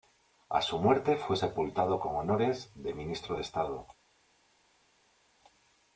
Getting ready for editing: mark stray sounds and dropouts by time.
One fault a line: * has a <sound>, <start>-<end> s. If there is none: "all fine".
all fine